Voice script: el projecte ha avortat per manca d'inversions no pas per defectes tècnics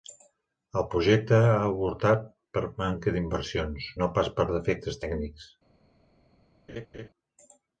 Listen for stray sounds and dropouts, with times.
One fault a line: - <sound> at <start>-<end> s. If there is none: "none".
- laugh at 6.7-7.1 s